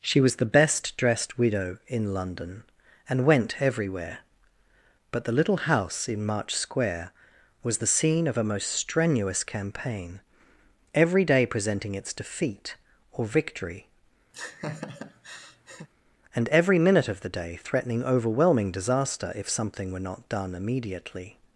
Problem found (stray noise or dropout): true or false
true